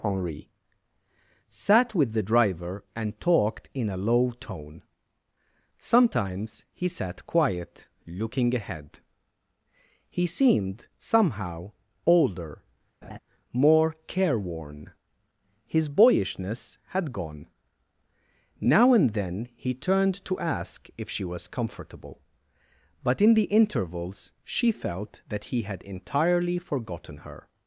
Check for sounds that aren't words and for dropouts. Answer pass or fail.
fail